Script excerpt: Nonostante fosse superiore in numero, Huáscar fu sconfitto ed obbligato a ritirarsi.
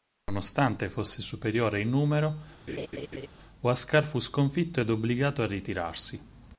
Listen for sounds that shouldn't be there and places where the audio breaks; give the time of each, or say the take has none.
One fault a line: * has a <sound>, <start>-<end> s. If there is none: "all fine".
* has a laugh, 2.7-3.3 s